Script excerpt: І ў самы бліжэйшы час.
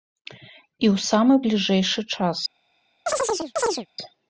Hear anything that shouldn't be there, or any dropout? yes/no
yes